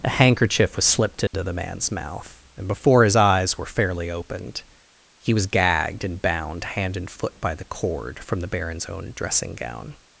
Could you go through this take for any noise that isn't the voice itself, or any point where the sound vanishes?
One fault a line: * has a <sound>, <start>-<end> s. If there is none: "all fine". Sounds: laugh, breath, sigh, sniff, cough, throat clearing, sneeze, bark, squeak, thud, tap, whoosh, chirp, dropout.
* has a dropout, 1.3-1.3 s